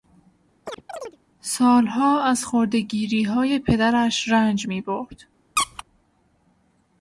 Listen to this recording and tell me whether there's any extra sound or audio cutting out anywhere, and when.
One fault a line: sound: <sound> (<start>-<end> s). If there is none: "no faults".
sound: chirp (0.7-1.2 s)
sound: squeak (5.6-5.8 s)